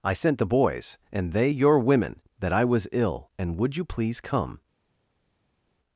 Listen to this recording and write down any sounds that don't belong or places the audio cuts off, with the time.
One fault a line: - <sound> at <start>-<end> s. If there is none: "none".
none